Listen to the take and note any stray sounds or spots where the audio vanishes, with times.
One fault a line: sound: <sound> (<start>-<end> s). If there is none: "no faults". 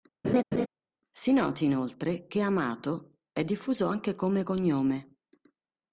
sound: laugh (0.2-0.7 s)